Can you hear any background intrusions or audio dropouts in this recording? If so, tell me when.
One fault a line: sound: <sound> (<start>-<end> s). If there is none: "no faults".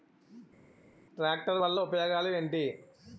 no faults